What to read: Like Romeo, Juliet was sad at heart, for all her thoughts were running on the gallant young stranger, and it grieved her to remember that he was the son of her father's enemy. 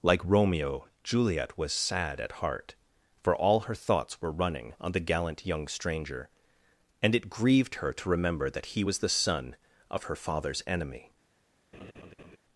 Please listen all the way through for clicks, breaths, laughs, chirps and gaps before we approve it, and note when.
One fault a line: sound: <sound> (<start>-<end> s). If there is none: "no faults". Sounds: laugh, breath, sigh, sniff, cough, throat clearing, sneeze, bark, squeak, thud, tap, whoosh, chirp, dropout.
sound: laugh (11.7-12.4 s)